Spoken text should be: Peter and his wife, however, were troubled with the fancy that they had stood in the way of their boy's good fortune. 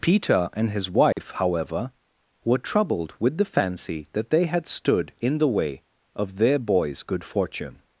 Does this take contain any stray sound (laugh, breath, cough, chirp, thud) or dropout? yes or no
yes